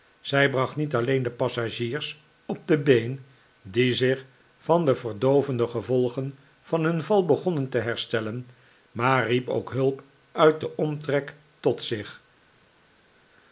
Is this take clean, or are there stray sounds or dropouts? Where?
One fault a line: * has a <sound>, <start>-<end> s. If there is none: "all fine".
all fine